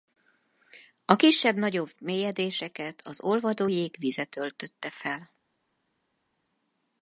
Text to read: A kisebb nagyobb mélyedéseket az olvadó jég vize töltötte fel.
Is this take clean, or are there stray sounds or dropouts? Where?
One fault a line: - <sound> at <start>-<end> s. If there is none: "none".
none